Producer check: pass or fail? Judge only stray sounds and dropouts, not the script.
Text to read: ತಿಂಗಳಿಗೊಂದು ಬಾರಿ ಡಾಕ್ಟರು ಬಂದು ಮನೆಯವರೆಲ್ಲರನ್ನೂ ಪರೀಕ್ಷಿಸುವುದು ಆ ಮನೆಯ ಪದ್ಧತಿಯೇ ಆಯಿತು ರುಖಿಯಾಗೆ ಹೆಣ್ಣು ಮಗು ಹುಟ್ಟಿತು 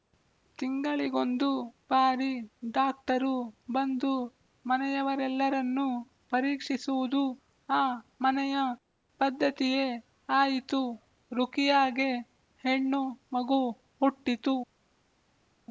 pass